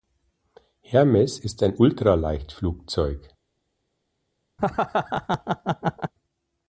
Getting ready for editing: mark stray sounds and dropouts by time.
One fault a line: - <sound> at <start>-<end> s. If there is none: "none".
- laugh at 4.6-6.1 s